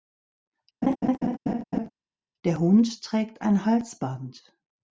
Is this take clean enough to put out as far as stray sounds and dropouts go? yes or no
no